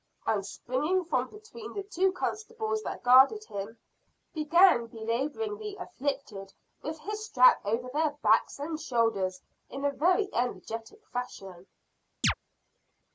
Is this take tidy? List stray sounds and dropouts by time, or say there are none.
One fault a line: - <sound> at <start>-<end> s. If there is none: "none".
- chirp at 12.2-12.3 s